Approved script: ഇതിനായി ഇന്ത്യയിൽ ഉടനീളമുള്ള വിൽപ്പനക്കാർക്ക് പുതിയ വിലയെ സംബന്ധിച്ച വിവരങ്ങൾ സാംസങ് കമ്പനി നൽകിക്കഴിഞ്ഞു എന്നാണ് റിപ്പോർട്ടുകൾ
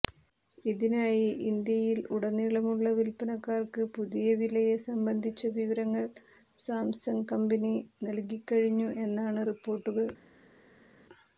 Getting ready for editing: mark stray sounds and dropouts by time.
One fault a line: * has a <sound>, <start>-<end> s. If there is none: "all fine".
all fine